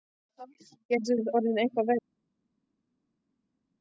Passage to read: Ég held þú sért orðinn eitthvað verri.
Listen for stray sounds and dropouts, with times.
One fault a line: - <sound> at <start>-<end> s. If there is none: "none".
none